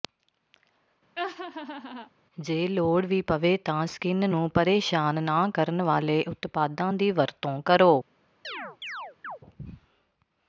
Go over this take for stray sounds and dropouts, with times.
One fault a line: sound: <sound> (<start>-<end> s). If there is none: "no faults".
sound: laugh (1.2-2.1 s)
sound: chirp (8.4-9.4 s)